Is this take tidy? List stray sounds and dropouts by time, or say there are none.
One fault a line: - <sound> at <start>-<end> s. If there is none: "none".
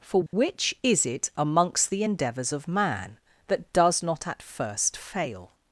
- dropout at 0.3-0.3 s